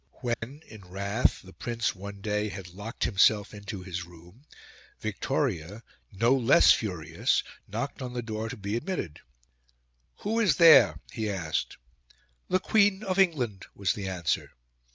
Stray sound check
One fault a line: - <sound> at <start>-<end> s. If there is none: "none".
- dropout at 0.3-0.4 s